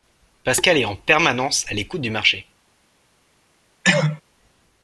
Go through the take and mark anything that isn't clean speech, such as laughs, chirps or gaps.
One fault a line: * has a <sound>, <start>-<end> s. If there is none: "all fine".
* has a cough, 3.8-4.2 s